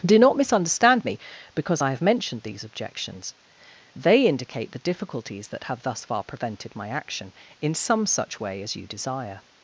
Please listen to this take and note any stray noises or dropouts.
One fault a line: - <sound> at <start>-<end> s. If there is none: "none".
none